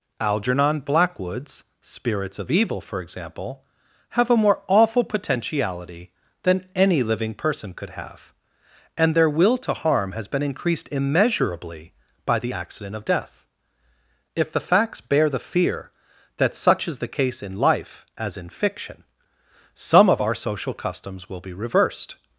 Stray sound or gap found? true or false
false